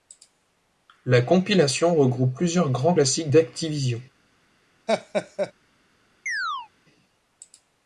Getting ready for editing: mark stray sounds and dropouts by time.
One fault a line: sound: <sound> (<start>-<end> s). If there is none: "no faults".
sound: laugh (4.9-5.5 s)
sound: chirp (6.3-6.7 s)